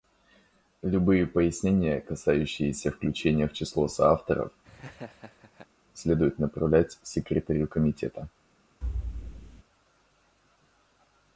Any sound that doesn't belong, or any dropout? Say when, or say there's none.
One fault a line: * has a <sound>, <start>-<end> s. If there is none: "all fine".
* has a laugh, 4.6-5.7 s
* has a thud, 8.8-9.6 s